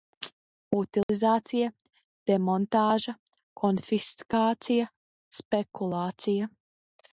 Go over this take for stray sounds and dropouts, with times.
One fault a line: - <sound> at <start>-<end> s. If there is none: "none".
- dropout at 1.0-1.1 s